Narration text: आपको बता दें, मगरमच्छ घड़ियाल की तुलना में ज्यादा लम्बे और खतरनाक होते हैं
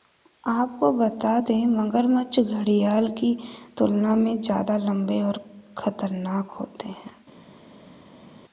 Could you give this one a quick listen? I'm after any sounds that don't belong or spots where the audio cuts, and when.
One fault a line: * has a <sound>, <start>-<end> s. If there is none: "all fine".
all fine